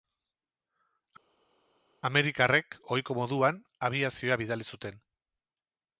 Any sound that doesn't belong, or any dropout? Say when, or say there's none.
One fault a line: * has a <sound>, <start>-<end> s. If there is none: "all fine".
all fine